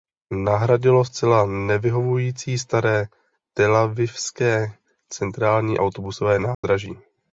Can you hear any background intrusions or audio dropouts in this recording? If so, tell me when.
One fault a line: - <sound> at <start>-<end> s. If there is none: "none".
- dropout at 6.5-6.6 s